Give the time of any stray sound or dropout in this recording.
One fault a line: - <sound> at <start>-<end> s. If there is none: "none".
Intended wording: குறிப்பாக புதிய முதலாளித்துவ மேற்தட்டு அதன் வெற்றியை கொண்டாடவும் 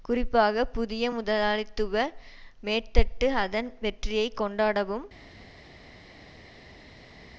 none